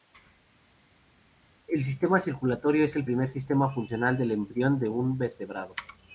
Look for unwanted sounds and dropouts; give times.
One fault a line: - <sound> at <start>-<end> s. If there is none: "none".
none